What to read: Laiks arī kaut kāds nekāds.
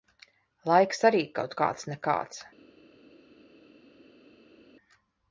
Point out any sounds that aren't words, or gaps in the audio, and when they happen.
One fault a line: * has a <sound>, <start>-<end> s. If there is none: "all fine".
all fine